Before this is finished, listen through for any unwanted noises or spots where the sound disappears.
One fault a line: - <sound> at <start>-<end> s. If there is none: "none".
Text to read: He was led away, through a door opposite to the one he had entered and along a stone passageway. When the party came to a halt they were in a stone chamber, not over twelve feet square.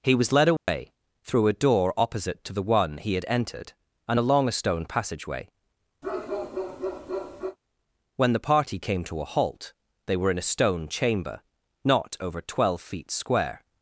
- dropout at 0.6-0.7 s
- bark at 6.0-7.6 s